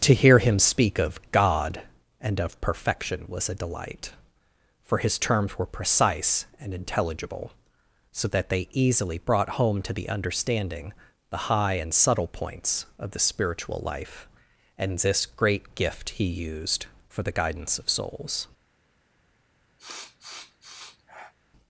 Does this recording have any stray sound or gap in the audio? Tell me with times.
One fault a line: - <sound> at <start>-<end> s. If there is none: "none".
- sniff at 19.8-21.3 s